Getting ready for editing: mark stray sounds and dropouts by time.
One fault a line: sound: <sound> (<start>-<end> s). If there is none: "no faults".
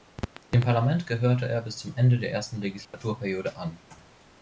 sound: dropout (2.8-2.9 s)